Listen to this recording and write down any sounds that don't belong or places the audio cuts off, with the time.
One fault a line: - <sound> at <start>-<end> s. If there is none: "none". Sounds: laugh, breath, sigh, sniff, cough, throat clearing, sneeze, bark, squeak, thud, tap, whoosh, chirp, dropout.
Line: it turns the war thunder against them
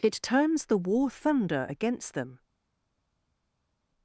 none